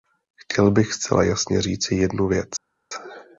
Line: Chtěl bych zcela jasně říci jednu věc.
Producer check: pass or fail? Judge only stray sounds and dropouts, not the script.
pass